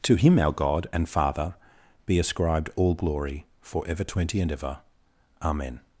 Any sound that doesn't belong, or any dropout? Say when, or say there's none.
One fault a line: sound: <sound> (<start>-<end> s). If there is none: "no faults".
no faults